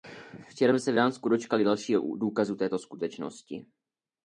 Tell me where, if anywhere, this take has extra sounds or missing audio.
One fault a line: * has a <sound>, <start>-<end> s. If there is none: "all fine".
all fine